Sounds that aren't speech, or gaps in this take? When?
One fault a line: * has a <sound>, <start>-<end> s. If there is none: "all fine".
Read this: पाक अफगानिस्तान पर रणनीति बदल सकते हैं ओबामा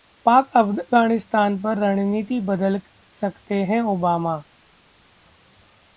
all fine